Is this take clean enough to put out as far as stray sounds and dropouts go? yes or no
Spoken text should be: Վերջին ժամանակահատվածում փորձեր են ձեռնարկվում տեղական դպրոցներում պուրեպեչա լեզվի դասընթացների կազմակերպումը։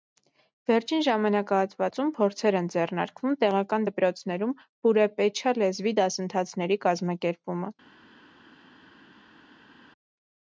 yes